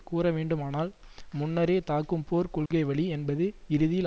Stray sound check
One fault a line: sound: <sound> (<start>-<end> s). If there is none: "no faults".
sound: dropout (2.7-2.7 s)